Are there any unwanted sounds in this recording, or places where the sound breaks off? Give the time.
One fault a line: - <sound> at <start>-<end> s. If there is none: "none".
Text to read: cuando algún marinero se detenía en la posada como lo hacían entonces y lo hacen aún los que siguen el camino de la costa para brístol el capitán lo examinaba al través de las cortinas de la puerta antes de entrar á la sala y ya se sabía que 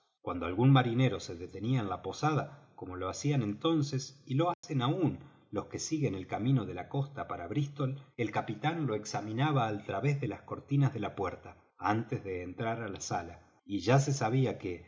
- dropout at 4.5-4.6 s